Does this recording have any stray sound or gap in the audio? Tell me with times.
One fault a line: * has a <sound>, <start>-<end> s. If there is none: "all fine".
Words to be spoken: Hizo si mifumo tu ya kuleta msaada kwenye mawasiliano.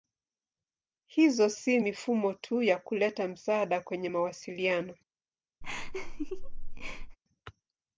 * has a laugh, 5.6-7.2 s